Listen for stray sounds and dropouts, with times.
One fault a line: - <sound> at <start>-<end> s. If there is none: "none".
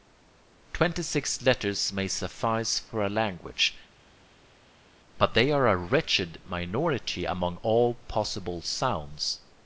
none